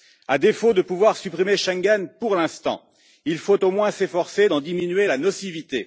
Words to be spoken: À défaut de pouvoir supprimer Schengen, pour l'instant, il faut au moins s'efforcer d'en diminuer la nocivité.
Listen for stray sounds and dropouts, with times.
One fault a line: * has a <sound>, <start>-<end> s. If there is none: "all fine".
all fine